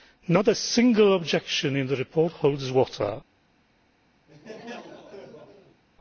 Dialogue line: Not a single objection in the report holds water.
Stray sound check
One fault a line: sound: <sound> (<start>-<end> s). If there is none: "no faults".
sound: laugh (4.3-5.8 s)